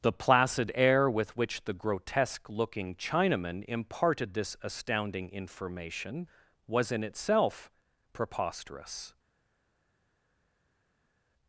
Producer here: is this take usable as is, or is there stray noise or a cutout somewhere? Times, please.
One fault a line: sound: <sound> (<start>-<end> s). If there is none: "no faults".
no faults